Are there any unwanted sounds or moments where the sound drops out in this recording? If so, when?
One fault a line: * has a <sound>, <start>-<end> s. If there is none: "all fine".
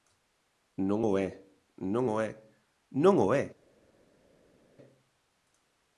all fine